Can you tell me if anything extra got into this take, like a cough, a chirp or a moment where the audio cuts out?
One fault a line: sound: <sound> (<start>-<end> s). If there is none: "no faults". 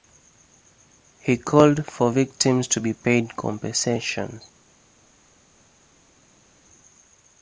no faults